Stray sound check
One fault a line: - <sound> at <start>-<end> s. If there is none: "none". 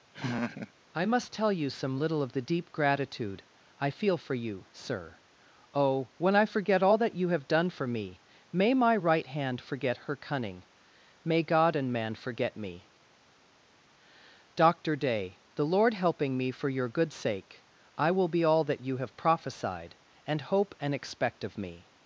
- laugh at 0.1-0.7 s